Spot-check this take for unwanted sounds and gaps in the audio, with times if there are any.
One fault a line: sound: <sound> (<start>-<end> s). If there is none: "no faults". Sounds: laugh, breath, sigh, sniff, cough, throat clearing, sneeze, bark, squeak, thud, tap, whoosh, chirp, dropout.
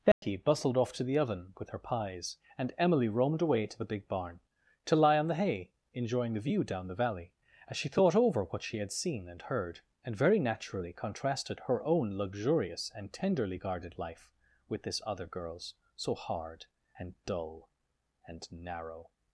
sound: dropout (0.1-0.2 s)